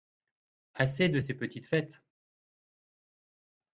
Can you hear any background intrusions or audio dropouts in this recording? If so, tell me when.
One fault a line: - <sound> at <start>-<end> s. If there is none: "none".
none